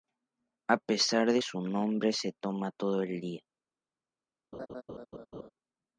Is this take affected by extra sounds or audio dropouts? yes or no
yes